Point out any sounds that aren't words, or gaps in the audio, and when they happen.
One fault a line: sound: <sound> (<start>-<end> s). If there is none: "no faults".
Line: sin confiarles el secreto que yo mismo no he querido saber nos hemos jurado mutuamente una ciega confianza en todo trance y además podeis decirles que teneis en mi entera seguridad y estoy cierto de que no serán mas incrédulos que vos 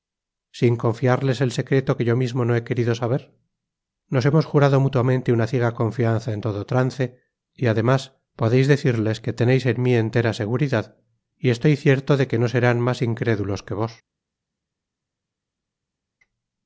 no faults